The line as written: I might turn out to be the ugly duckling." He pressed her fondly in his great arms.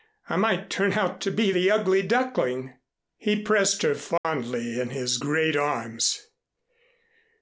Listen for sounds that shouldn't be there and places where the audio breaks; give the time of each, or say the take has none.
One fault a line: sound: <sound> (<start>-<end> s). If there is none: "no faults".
sound: dropout (4.2-4.2 s)